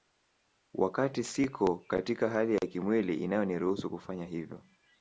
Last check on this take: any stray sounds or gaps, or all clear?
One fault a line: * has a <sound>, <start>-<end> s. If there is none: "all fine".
all fine